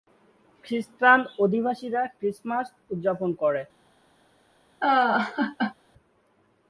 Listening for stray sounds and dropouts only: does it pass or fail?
fail